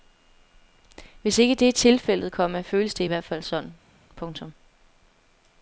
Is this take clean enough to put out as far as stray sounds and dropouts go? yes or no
yes